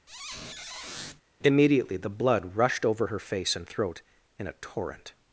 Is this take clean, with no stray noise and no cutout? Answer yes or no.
no